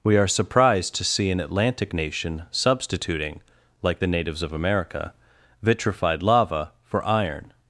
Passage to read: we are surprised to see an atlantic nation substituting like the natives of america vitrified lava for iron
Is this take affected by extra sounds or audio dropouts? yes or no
no